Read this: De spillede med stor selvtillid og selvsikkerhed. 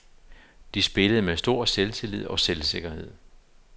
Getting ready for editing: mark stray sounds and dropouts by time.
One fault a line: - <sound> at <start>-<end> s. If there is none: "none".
none